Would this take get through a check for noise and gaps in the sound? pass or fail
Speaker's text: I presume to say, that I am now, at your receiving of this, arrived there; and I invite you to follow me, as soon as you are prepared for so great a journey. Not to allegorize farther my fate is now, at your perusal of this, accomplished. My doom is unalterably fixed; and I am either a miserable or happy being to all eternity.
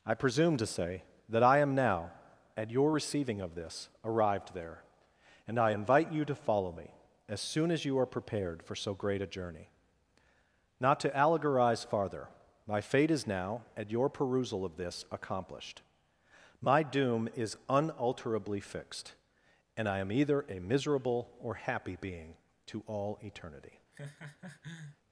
fail